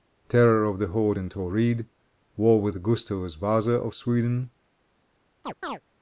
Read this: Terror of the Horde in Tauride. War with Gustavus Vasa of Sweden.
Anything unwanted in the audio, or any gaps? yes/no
yes